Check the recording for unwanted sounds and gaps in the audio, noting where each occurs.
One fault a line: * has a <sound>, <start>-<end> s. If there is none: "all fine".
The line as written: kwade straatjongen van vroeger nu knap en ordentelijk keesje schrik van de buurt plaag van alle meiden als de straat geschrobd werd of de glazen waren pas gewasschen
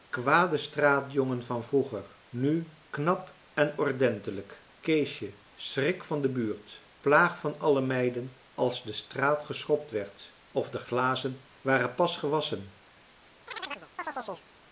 * has a chirp, 13.5-14.5 s